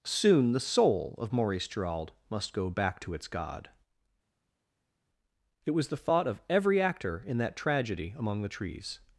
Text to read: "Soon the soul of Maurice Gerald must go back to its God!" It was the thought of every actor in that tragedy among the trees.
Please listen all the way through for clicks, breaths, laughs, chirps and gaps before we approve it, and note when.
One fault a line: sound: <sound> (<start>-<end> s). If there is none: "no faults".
no faults